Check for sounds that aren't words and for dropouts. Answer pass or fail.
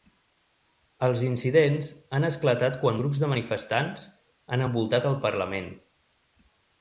pass